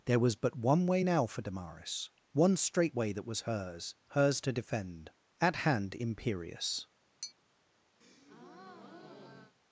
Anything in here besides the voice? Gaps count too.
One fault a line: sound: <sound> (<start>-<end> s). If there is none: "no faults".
sound: tap (7.2-7.3 s)
sound: breath (8.0-9.6 s)